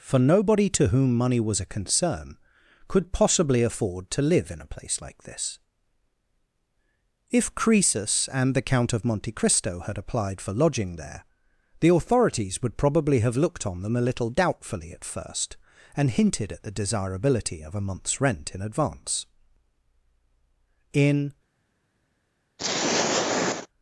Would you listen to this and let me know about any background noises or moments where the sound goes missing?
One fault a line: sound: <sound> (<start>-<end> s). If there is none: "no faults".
sound: throat clearing (22.6-23.7 s)